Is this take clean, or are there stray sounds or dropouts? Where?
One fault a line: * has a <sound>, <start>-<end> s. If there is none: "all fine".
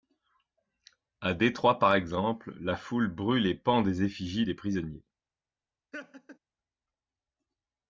* has a laugh, 5.9-6.4 s